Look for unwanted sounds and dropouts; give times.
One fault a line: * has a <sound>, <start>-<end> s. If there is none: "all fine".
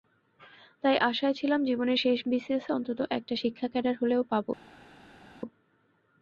all fine